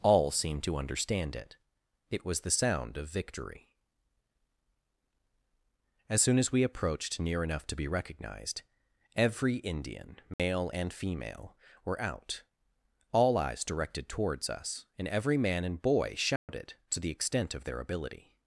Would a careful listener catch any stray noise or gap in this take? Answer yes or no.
yes